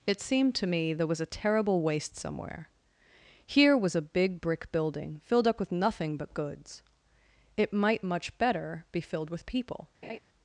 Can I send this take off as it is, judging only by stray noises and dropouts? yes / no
no